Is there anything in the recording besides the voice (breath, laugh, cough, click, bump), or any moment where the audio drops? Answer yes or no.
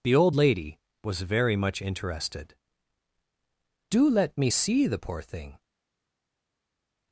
no